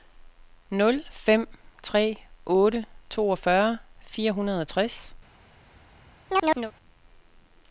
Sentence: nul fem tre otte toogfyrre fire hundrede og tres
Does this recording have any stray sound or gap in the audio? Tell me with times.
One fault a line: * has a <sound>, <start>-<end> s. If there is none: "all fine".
* has a chirp, 6.3-6.7 s